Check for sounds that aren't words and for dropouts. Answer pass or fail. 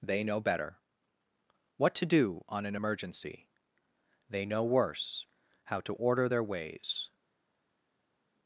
pass